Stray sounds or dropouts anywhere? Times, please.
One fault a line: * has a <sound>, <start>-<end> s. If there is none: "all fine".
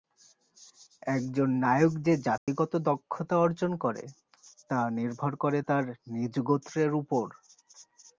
* has a dropout, 2.4-2.5 s